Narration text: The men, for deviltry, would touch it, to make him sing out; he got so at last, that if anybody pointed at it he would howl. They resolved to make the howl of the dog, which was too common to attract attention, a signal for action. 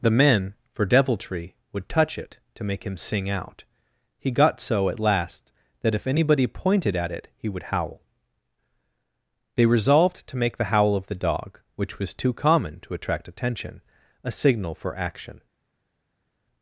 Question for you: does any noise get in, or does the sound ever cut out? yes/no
no